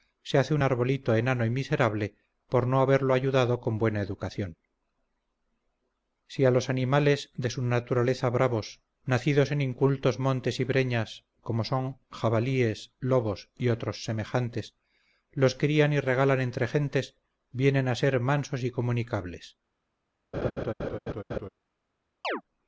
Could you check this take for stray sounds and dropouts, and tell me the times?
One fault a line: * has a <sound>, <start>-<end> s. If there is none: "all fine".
* has a laugh, 20.3-21.5 s
* has a chirp, 22.2-22.4 s